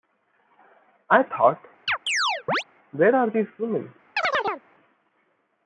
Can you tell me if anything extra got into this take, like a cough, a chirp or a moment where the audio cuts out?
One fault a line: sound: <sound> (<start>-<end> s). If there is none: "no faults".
sound: chirp (1.9-2.6 s)
sound: chirp (4.2-4.6 s)